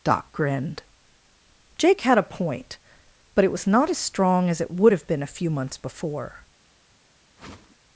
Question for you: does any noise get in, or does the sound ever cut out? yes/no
yes